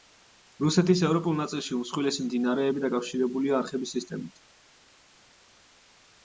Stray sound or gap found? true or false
false